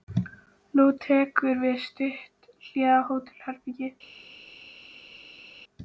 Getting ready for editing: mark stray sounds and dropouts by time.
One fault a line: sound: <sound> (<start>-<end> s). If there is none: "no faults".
no faults